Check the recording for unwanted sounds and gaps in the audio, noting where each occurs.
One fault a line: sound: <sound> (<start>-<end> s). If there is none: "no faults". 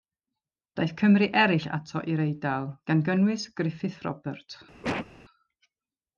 sound: cough (4.8-5.1 s)